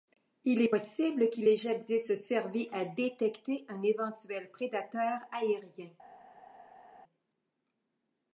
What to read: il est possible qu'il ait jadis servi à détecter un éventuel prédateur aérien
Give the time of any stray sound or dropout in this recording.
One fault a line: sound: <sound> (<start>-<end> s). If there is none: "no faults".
no faults